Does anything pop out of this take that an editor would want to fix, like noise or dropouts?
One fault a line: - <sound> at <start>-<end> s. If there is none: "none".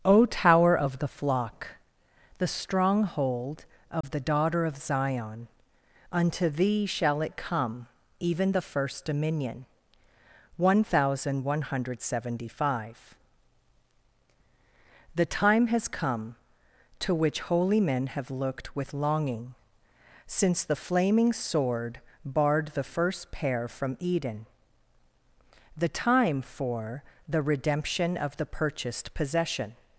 - dropout at 4.0-4.0 s